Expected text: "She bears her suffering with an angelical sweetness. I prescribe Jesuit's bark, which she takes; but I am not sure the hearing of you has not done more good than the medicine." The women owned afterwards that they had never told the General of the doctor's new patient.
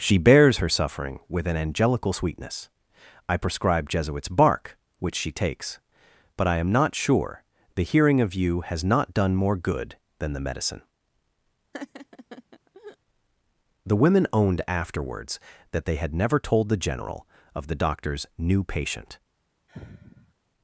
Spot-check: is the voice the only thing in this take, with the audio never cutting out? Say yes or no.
no